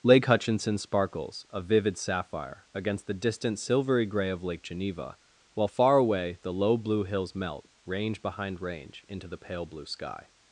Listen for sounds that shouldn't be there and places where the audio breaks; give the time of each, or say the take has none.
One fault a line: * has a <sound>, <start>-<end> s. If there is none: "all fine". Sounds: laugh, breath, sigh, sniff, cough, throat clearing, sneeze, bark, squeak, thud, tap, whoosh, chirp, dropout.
all fine